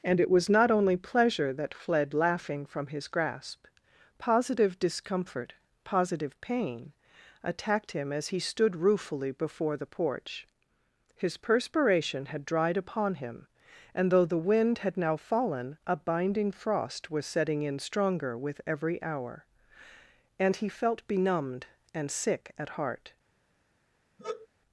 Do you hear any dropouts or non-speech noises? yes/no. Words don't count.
yes